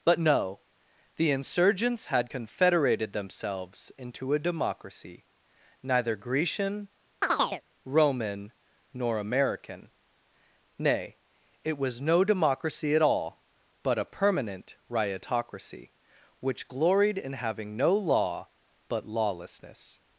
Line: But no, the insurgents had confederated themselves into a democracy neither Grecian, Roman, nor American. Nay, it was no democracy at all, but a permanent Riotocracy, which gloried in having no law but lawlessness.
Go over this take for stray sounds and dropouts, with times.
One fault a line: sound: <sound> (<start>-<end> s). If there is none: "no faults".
sound: chirp (7.2-7.6 s)